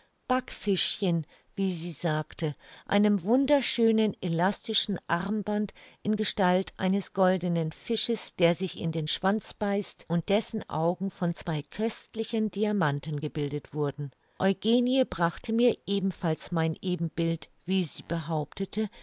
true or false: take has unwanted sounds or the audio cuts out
false